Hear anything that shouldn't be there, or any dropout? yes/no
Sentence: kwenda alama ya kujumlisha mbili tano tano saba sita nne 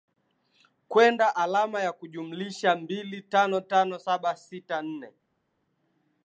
no